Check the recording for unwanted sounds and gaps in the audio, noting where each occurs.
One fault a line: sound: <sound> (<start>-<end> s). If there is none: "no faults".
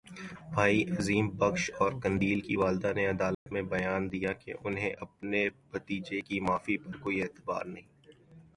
sound: dropout (3.3-3.5 s)